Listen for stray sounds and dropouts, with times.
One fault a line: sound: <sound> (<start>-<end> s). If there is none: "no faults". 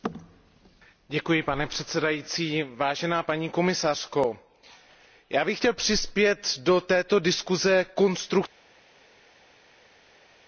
no faults